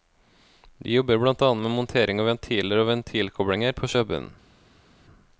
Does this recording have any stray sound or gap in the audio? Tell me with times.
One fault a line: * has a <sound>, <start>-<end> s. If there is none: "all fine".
all fine